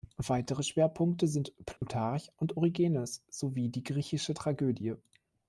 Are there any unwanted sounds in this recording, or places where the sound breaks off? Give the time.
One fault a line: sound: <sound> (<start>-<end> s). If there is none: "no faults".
sound: dropout (1.8-1.8 s)